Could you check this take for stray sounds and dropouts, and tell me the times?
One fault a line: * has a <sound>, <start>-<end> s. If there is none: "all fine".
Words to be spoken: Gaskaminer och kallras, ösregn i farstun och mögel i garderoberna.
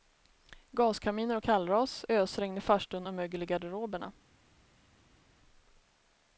all fine